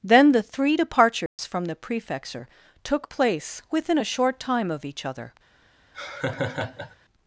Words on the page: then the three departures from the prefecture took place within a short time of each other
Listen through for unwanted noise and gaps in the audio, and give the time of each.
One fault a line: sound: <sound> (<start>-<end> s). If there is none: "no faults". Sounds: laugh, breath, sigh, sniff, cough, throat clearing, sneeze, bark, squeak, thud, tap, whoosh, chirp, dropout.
sound: dropout (1.3-1.4 s)
sound: laugh (5.9-7.0 s)